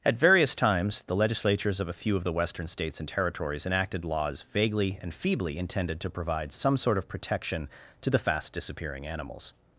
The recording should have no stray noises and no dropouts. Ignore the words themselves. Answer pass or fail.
pass